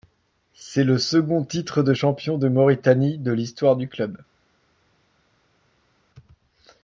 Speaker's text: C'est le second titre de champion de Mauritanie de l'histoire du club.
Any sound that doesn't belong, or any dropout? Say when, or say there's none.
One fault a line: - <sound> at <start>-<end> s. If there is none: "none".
none